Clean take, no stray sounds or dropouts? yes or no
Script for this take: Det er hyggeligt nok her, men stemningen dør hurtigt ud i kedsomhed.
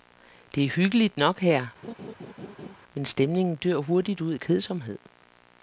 no